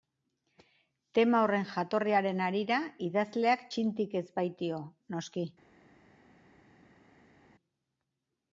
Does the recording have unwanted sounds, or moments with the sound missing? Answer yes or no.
no